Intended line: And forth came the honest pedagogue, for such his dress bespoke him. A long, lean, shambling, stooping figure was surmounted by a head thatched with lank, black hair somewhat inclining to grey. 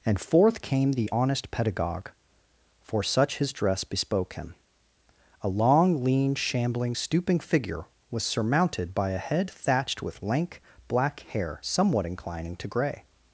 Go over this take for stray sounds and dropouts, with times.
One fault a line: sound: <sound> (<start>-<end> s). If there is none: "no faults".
no faults